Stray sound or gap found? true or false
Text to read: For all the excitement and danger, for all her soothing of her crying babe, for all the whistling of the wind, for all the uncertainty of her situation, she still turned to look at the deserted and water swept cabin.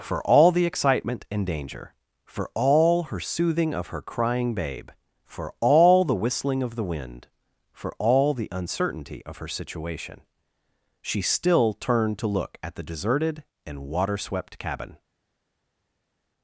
false